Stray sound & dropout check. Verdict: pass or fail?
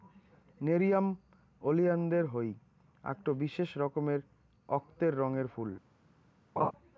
fail